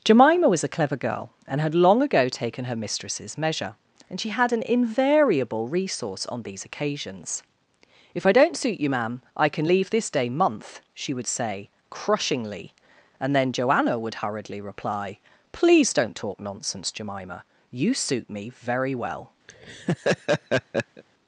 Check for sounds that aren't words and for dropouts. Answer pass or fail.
fail